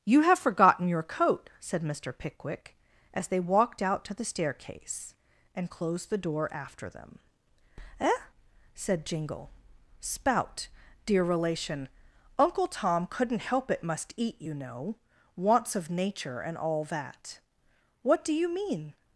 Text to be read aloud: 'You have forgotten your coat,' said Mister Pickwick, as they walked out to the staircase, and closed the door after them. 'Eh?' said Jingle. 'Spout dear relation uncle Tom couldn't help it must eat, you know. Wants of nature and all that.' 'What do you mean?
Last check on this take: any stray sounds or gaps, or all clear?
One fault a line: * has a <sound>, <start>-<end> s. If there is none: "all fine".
all fine